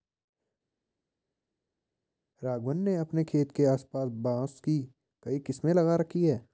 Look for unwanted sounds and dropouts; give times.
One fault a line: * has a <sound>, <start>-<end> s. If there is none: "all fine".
all fine